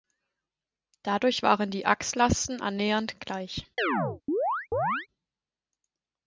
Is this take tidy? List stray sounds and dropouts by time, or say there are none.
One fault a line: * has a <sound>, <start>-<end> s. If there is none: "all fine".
* has a chirp, 3.8-5.1 s